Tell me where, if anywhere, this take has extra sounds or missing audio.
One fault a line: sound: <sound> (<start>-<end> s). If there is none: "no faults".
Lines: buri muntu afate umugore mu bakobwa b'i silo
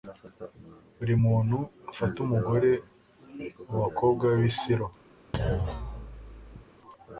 sound: thud (5.3-6.6 s)